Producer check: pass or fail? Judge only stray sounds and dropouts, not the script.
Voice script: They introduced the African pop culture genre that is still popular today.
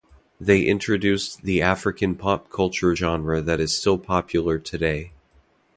pass